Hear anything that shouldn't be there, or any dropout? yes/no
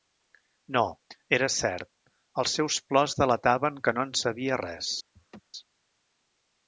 yes